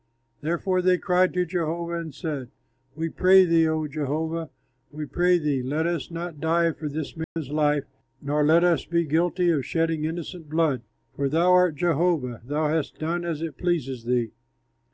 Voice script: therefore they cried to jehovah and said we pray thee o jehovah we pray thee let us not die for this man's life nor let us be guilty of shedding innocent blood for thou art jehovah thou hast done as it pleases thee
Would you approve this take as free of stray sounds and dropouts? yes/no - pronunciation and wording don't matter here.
no